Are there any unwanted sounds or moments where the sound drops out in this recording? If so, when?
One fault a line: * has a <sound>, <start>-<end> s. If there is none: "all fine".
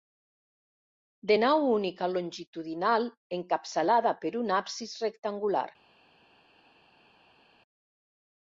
all fine